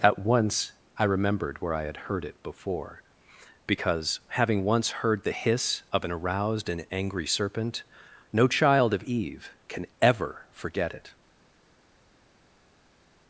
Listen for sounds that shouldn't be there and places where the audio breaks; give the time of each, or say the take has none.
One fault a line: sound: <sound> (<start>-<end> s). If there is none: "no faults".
no faults